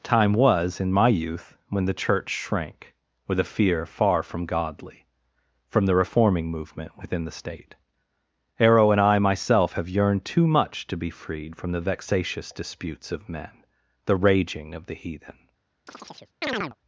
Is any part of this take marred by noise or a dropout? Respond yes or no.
yes